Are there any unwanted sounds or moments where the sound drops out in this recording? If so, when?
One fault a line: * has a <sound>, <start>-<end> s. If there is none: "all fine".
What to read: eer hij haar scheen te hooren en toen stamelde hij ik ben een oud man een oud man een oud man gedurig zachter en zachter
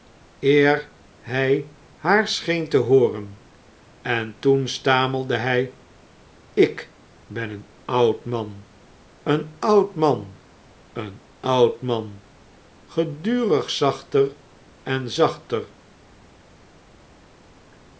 all fine